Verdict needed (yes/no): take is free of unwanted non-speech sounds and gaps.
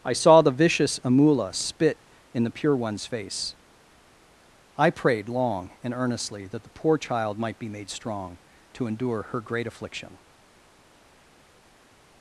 yes